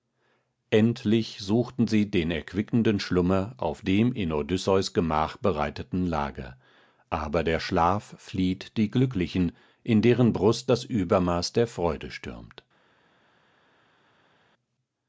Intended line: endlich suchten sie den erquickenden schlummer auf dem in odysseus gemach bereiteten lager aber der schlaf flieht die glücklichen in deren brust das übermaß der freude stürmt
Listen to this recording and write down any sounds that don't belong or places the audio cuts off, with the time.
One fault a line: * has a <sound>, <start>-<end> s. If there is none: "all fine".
all fine